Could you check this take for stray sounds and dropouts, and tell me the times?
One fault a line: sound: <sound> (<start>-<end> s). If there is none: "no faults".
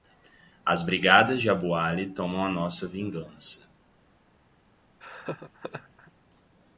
sound: laugh (5.0-6.1 s)